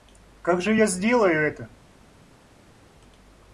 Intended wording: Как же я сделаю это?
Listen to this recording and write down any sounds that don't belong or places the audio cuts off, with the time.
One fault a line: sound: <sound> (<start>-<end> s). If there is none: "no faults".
no faults